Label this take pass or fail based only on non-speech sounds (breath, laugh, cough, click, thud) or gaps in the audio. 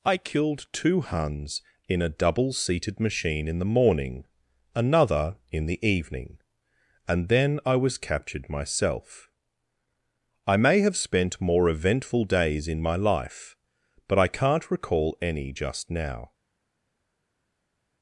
pass